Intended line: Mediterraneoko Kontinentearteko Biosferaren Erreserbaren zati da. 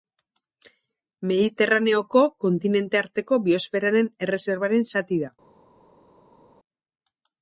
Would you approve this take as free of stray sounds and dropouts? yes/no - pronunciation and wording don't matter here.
yes